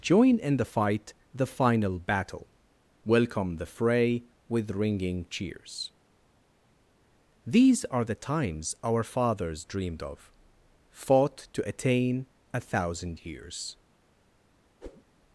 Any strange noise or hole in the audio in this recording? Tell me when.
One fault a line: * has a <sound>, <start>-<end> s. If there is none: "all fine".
* has a whoosh, 14.8-15.0 s